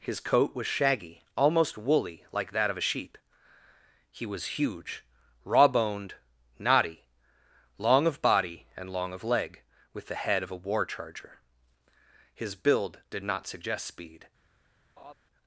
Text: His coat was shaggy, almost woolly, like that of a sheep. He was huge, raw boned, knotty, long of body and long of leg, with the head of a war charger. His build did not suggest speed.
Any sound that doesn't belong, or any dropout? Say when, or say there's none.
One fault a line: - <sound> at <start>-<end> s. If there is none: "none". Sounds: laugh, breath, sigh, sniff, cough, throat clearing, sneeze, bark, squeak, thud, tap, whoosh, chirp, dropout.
- laugh at 15.0-15.1 s